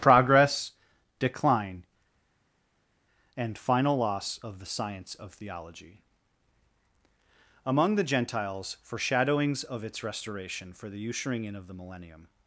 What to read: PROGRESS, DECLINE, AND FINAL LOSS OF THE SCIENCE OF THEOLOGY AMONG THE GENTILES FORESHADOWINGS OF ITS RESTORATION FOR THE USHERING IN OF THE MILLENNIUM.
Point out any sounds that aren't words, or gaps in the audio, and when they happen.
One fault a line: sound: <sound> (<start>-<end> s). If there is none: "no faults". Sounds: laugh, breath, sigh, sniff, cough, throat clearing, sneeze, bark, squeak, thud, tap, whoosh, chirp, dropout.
no faults